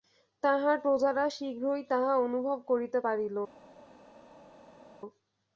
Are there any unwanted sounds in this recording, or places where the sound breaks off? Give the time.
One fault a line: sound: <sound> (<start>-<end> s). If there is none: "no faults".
no faults